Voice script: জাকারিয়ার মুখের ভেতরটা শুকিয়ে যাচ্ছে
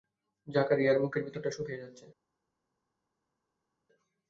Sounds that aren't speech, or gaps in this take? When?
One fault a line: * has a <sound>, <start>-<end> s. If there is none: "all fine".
all fine